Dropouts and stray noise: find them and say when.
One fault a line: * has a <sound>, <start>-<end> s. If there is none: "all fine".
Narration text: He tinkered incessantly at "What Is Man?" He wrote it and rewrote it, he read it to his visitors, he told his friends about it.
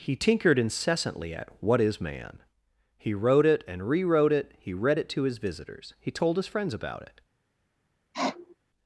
* has a sniff, 8.1-8.6 s